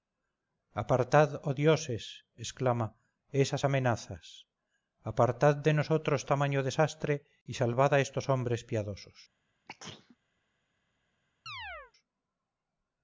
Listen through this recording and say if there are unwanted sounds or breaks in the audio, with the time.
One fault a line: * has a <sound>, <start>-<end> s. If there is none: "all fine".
* has a sneeze, 9.7-10.2 s
* has a chirp, 11.5-11.9 s